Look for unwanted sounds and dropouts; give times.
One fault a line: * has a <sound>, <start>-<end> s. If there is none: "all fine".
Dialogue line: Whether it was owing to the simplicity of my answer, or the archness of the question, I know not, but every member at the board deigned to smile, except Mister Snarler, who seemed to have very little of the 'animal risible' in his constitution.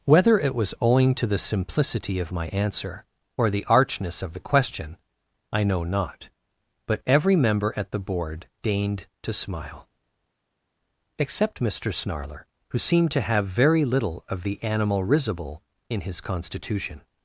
all fine